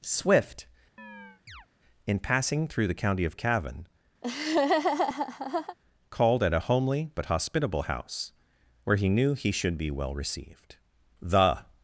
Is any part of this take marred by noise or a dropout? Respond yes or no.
yes